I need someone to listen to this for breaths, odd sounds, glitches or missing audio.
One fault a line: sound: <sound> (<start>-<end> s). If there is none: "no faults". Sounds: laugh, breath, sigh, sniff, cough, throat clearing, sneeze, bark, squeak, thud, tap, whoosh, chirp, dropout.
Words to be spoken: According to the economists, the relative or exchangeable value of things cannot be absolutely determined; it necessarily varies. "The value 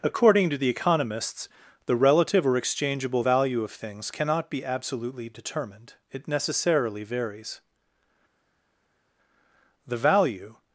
no faults